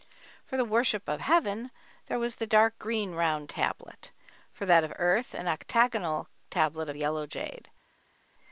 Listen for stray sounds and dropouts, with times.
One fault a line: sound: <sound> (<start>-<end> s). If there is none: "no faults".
no faults